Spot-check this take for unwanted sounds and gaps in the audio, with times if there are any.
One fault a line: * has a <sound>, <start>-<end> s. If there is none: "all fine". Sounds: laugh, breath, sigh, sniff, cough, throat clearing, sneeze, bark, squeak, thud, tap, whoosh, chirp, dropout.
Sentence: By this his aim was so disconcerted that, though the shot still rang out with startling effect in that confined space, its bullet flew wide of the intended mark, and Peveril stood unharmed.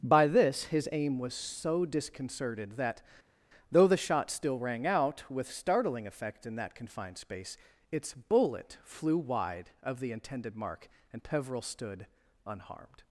all fine